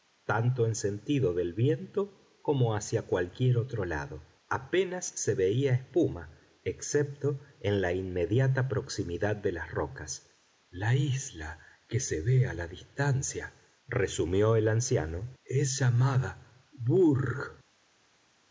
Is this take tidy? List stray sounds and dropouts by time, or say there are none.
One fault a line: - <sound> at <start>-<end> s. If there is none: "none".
none